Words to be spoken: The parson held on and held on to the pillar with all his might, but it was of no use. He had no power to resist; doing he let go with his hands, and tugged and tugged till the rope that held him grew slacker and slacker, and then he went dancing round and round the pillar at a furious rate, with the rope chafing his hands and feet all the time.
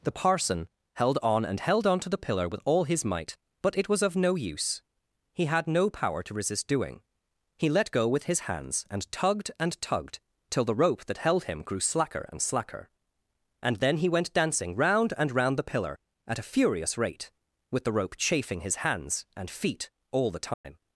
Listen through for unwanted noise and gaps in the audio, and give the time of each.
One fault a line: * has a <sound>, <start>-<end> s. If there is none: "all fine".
* has a dropout, 20.5-20.6 s